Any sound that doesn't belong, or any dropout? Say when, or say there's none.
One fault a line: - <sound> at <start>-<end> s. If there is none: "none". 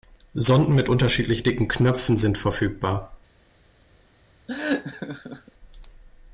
- laugh at 4.5-5.5 s